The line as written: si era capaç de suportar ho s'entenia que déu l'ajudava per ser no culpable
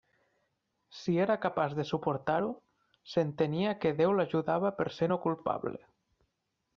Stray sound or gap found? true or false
false